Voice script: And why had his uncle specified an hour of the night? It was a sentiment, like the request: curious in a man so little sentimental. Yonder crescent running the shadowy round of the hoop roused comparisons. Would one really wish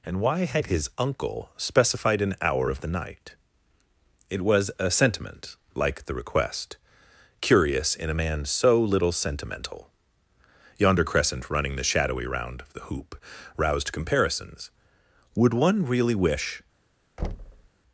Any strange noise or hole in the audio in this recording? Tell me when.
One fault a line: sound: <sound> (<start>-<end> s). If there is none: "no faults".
sound: thud (17.2-17.7 s)